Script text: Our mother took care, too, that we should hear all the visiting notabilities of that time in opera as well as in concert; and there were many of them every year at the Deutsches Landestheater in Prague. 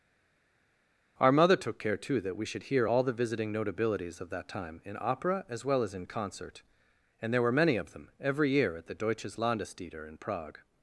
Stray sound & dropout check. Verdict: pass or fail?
pass